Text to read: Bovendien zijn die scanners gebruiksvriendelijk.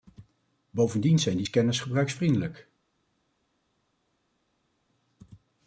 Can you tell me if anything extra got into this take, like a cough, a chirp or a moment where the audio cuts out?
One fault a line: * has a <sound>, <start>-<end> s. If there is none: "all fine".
all fine